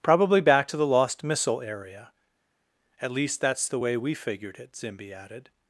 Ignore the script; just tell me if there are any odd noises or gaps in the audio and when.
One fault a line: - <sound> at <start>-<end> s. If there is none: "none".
none